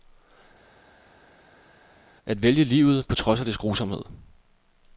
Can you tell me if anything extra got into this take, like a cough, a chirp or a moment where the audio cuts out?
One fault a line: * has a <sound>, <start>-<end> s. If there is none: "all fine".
all fine